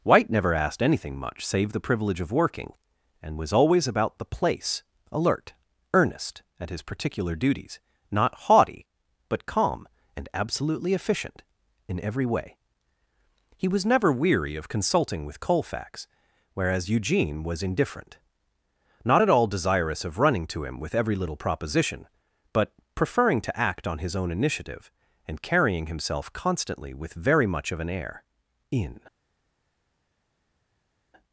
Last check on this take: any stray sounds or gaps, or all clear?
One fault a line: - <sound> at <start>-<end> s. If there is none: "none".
none